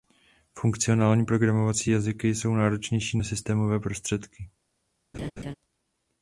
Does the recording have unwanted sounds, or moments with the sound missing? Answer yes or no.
yes